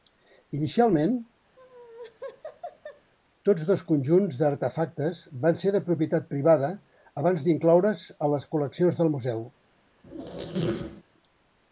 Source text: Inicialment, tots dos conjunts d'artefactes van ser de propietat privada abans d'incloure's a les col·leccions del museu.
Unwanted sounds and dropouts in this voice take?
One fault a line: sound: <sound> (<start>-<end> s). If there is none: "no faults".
sound: laugh (1.6-3.1 s)
sound: squeak (10.0-11.0 s)